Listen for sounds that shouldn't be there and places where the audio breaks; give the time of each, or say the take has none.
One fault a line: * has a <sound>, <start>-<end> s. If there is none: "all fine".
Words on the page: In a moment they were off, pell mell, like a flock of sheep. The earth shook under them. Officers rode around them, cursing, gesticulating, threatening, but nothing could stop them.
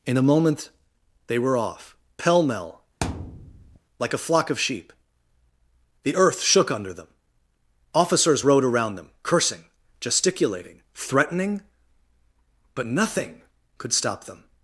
* has a thud, 3.0-3.8 s